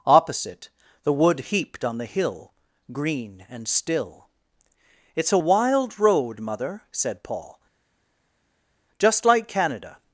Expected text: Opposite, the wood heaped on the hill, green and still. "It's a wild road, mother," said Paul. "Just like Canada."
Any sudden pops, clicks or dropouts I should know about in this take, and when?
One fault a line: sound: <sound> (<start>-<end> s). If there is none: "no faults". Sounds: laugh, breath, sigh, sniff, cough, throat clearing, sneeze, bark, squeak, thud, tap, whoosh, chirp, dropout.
no faults